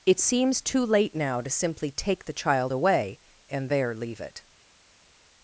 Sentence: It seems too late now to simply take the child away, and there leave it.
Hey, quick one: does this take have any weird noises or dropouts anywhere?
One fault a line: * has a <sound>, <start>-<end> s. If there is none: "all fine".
all fine